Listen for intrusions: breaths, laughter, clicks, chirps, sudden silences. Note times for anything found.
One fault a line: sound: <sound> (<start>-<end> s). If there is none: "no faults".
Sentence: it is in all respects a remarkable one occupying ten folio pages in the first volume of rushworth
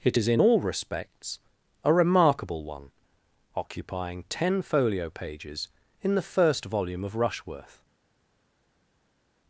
no faults